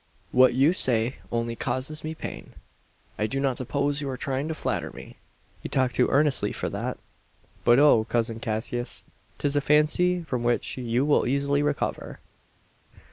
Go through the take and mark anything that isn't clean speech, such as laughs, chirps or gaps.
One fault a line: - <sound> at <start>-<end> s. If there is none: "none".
none